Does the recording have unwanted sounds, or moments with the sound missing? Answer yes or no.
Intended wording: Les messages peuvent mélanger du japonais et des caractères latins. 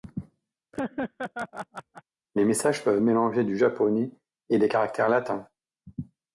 yes